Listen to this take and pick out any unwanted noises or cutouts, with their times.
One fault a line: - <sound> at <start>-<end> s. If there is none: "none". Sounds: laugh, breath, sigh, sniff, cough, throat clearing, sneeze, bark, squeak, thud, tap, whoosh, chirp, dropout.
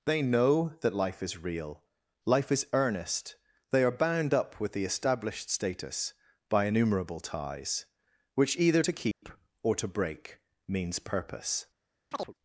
- dropout at 9.1-9.2 s
- chirp at 12.1-12.3 s